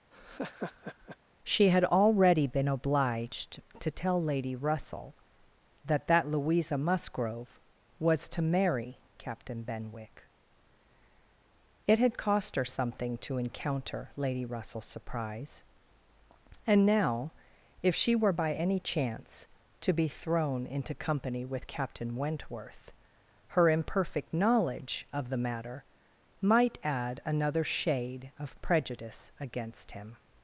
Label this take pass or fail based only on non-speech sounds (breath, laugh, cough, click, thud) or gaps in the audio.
fail